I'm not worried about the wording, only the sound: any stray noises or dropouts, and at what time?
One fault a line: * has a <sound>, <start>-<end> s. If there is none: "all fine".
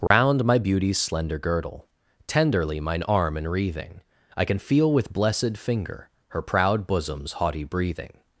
* has a dropout, 0.1-0.1 s